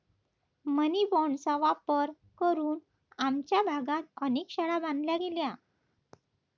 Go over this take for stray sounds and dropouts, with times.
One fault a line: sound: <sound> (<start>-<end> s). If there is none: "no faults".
no faults